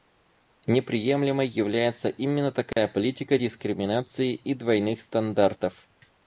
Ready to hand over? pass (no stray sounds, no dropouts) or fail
fail